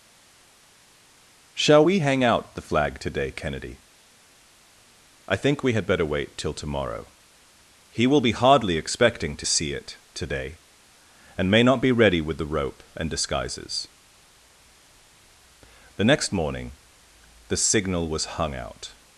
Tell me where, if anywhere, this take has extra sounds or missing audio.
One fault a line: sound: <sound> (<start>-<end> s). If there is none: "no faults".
no faults